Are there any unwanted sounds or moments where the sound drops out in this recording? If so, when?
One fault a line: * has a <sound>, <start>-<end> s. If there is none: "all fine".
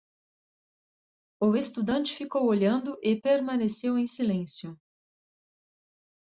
all fine